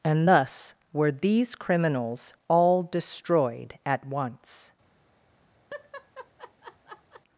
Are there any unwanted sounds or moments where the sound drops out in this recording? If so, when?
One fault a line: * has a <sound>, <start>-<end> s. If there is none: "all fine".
* has a laugh, 5.7-7.2 s